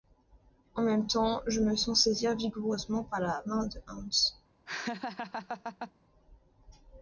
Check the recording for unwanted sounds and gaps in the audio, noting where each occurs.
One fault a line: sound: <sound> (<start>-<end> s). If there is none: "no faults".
sound: laugh (4.7-5.9 s)